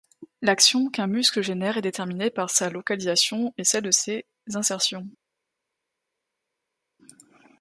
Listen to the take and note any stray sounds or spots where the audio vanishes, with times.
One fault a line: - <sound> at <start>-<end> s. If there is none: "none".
none